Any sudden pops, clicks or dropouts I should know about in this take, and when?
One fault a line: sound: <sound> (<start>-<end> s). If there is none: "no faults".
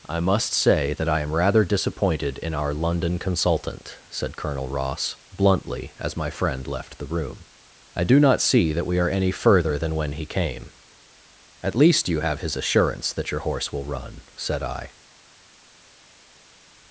no faults